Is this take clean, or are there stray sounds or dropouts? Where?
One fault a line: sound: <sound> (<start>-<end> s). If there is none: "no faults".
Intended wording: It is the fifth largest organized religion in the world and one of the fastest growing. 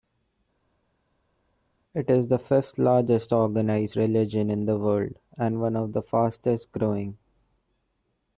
no faults